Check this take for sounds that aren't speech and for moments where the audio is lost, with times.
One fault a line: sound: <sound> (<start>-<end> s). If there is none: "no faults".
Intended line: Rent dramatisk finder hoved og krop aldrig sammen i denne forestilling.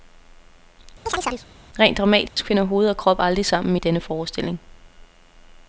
sound: chirp (1.1-1.5 s)
sound: dropout (2.3-2.4 s)